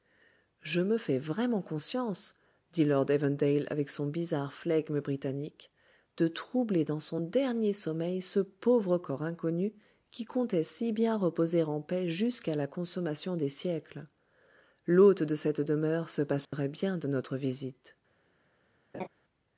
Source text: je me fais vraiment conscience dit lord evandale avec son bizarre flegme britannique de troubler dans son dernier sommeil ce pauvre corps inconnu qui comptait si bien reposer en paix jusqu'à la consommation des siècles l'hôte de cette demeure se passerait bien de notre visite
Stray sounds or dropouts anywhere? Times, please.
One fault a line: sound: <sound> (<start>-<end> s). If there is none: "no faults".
sound: dropout (16.4-16.5 s)
sound: laugh (18.9-19.1 s)